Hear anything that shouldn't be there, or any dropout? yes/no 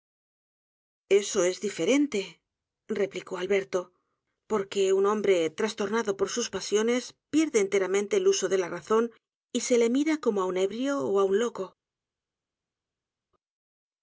no